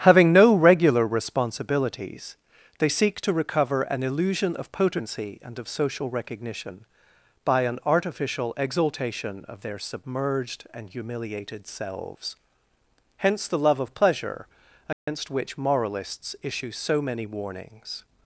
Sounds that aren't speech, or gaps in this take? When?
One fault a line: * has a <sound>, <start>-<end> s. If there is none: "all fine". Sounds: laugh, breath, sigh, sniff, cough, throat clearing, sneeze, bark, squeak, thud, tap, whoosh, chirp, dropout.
* has a dropout, 14.9-15.1 s